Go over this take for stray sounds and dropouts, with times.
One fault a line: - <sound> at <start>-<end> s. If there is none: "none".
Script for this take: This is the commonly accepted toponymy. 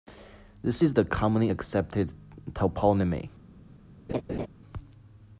- laugh at 4.1-4.5 s